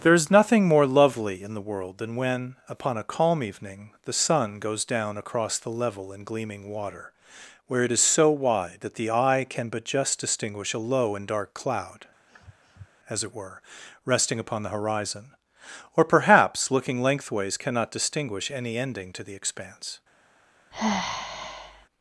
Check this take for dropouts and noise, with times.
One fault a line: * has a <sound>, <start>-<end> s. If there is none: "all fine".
* has a sniff, 12.3-12.9 s
* has a sigh, 20.7-21.9 s